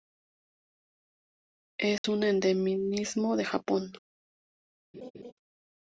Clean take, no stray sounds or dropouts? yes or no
no